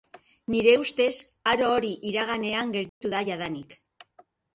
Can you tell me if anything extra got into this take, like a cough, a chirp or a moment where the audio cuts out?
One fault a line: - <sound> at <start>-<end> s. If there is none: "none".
- dropout at 2.9-3.0 s